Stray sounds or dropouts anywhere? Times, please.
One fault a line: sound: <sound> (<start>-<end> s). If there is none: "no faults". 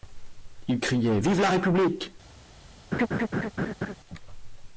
sound: laugh (2.9-4.0 s)